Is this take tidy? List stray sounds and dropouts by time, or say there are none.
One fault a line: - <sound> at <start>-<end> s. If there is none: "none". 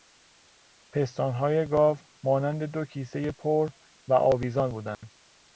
- dropout at 4.9-5.0 s